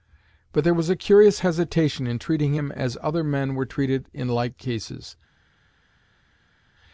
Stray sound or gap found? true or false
false